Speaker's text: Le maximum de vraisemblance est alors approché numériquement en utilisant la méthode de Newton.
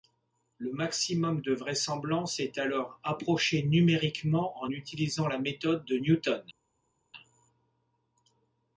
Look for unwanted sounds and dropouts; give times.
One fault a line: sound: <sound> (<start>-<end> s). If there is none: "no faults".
no faults